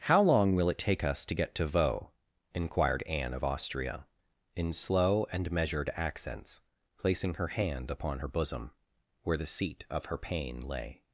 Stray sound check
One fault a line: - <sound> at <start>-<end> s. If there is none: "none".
none